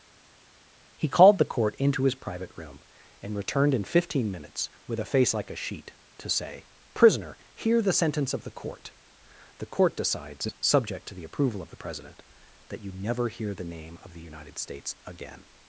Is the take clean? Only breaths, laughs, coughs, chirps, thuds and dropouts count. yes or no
yes